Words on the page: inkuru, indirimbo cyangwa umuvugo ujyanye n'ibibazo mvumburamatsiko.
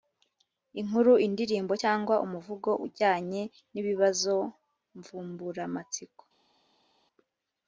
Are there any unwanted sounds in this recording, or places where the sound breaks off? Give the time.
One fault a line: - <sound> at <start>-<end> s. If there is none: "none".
none